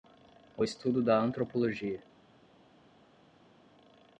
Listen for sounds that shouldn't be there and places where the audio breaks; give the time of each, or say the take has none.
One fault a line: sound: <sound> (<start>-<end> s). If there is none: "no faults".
no faults